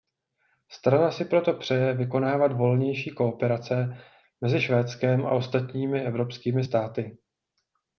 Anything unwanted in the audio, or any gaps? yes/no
no